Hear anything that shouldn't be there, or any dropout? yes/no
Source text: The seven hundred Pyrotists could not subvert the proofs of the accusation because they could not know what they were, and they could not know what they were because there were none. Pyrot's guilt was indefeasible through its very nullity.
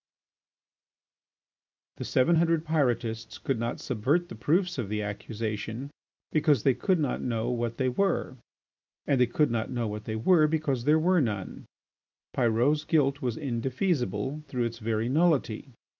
no